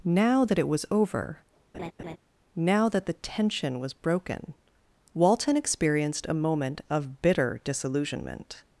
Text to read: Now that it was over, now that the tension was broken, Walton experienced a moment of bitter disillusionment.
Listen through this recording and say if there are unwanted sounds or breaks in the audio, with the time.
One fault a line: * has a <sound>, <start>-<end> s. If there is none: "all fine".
* has a laugh, 1.7-2.2 s